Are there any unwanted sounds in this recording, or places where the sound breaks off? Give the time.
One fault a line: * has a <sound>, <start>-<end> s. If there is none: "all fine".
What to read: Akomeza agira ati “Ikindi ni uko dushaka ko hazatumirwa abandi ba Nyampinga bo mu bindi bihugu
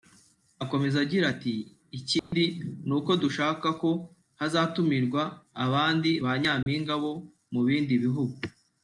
* has a dropout, 2.2-2.3 s
* has a dropout, 6.6-6.7 s